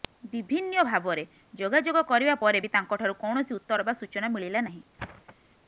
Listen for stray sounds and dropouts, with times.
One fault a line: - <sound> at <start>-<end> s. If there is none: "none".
- thud at 5.0-5.4 s